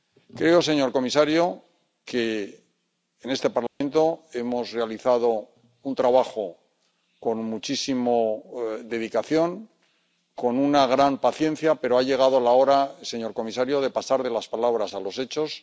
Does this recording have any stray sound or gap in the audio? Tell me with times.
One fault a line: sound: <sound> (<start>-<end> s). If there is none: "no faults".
sound: dropout (3.7-3.8 s)